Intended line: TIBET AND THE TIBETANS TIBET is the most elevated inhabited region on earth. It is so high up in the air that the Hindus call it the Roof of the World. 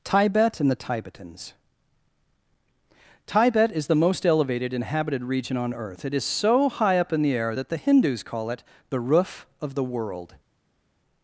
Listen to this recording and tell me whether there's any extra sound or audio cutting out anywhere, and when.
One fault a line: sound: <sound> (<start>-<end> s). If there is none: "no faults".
no faults